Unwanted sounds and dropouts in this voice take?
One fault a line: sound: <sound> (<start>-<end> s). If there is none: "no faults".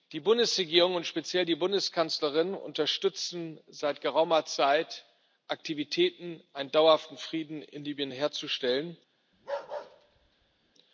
sound: bark (9.3-10.7 s)